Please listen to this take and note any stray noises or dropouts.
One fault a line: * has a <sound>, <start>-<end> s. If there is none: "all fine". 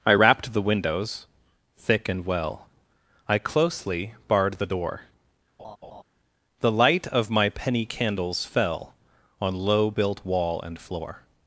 * has a laugh, 5.6-6.0 s